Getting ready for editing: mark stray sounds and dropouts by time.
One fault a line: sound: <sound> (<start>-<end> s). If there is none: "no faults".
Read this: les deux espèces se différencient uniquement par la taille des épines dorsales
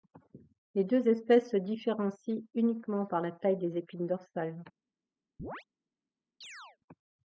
sound: chirp (5.4-5.6 s)
sound: chirp (6.4-6.8 s)